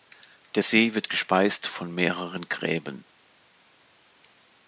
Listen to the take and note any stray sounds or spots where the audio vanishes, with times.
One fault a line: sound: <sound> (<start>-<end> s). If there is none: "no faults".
no faults